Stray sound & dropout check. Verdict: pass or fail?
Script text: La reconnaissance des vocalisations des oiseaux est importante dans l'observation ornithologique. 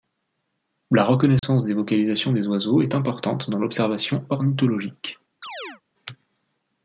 fail